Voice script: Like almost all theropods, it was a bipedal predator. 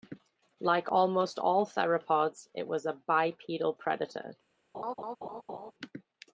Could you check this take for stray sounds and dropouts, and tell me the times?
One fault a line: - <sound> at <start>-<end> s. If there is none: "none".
- laugh at 4.7-5.7 s